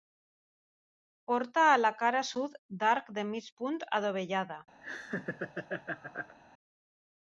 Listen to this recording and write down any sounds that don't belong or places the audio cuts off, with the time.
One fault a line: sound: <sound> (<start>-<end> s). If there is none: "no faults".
sound: laugh (4.8-6.4 s)